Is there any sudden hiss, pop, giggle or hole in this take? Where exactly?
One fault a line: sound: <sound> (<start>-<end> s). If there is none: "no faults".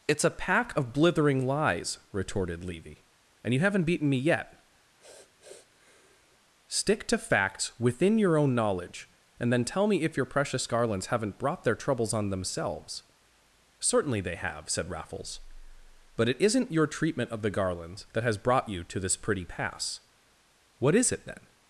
sound: sniff (5.0-6.4 s)